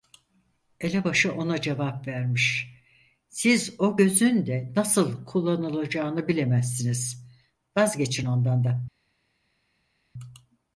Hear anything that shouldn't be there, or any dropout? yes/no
no